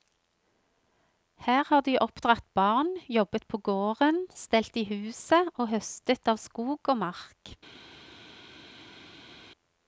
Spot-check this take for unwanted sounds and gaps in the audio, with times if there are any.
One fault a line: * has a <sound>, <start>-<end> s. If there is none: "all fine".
all fine